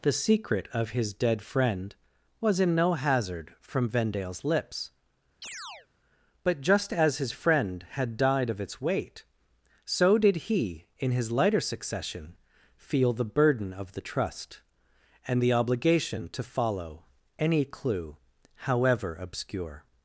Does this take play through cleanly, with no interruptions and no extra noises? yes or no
no